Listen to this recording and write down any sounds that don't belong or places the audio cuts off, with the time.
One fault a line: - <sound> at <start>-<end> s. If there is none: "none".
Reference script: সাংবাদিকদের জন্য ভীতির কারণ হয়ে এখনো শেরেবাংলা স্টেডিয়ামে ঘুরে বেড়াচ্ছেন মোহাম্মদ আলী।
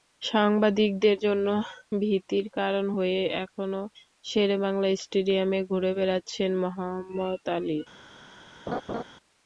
- laugh at 8.7-9.0 s